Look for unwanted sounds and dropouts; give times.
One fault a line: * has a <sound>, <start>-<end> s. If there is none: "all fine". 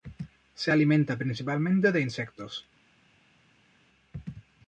all fine